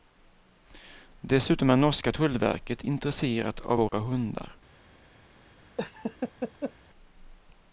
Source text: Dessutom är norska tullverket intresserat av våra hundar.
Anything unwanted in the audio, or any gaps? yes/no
yes